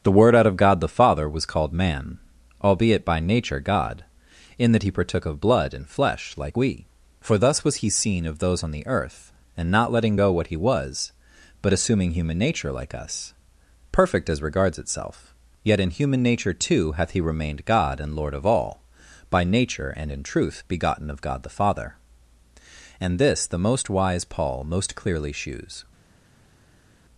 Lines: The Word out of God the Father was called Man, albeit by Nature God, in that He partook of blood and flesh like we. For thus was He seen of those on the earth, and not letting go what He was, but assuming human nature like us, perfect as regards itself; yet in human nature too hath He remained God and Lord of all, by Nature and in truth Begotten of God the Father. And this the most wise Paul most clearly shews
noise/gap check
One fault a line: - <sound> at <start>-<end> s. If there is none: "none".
none